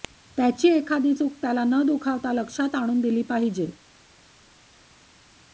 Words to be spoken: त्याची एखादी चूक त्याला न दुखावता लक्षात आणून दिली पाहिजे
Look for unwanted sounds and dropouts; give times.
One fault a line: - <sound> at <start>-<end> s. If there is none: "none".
none